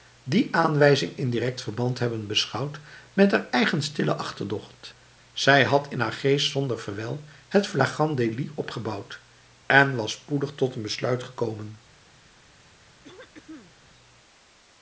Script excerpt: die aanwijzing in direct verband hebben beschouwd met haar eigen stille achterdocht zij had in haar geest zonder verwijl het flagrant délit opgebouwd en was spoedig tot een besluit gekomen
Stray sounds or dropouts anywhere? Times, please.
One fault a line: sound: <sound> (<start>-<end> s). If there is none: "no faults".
sound: throat clearing (13.0-13.7 s)